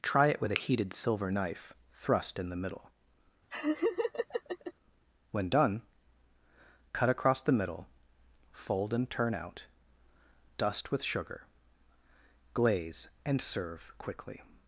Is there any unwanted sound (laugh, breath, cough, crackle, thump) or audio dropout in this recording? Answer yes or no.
yes